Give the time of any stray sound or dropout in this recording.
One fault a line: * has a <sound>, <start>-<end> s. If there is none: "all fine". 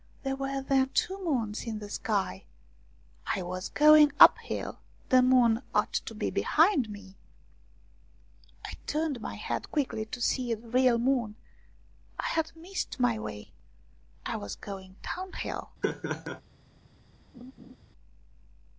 * has a laugh, 15.8-16.4 s
* has a laugh, 17.3-17.8 s